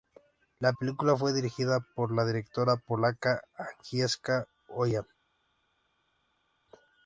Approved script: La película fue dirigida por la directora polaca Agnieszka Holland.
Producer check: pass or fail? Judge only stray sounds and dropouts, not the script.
pass